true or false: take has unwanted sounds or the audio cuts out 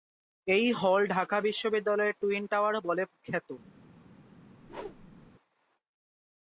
true